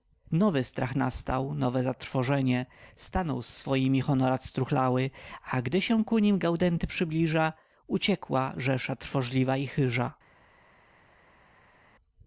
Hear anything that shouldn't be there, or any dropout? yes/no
no